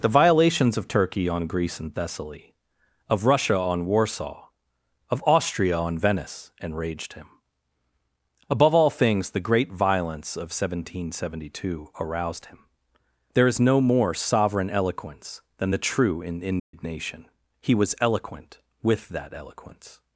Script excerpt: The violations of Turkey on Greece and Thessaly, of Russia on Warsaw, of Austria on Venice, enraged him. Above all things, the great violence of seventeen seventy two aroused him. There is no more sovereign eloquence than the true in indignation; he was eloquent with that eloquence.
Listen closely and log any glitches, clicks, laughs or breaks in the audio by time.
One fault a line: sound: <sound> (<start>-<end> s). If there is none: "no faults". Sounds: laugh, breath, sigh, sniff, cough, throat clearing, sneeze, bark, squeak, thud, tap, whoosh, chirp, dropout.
sound: dropout (16.6-16.7 s)